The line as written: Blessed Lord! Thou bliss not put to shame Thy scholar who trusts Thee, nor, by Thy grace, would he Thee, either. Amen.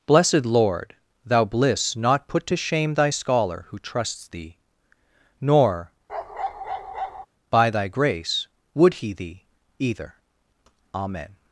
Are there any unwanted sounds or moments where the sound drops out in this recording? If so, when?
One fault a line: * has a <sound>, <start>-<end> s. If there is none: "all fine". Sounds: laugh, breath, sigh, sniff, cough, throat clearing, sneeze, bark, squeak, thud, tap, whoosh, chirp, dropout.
* has a bark, 6.1-7.3 s